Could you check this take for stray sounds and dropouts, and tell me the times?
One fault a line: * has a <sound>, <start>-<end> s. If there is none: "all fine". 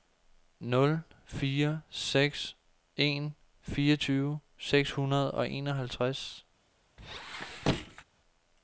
* has a squeak, 7.0-8.0 s